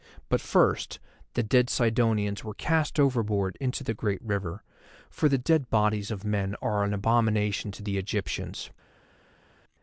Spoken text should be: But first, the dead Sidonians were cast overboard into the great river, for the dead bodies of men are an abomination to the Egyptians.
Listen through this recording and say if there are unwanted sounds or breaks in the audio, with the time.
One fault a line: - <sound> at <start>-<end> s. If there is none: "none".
none